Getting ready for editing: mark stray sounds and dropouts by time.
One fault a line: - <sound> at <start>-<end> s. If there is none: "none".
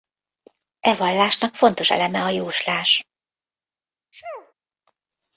- sneeze at 4.1-4.5 s